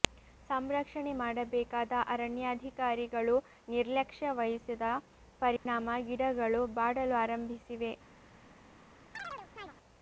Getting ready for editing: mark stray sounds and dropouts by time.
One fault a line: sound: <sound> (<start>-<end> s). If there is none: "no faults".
sound: dropout (5.6-5.7 s)
sound: chirp (9.1-9.7 s)